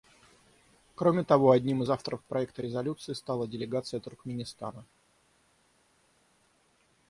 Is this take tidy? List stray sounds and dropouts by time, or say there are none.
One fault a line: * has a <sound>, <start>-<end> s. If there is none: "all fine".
all fine